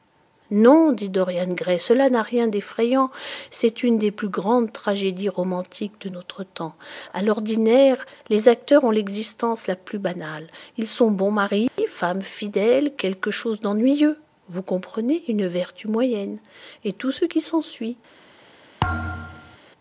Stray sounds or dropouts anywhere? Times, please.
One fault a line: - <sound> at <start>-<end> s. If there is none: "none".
- dropout at 11.7-11.8 s
- thud at 18.8-19.6 s